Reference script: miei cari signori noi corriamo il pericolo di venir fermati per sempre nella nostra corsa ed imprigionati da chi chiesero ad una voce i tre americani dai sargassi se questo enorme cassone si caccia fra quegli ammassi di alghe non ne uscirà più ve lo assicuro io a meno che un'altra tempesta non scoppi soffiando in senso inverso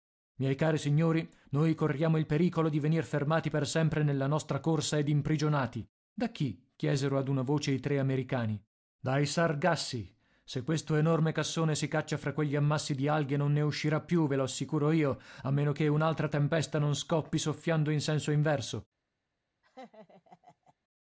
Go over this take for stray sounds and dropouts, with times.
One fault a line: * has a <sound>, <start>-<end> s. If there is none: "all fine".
* has a laugh, 19.6-20.7 s